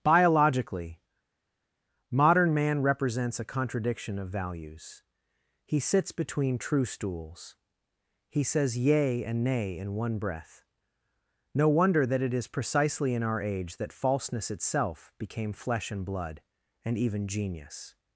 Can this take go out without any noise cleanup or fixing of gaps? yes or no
yes